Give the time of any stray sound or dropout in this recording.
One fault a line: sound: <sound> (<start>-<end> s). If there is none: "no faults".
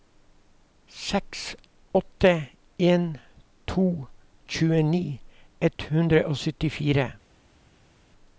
no faults